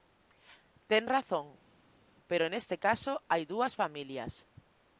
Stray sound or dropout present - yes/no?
no